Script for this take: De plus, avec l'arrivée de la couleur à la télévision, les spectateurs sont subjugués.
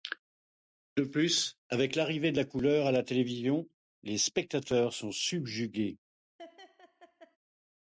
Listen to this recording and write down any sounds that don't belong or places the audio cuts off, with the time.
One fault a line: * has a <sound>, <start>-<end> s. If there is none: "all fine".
* has a laugh, 6.4-7.4 s